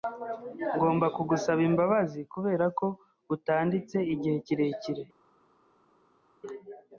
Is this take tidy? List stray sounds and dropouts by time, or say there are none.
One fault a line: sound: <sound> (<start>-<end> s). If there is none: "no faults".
no faults